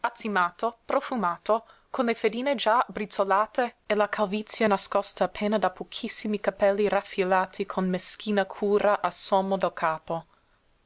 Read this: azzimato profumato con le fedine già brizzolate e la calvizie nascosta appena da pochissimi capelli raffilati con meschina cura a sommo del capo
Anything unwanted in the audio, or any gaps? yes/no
no